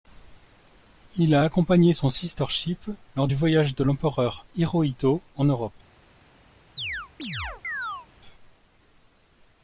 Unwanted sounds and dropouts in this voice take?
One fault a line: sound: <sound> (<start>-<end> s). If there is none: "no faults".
sound: chirp (6.8-8.1 s)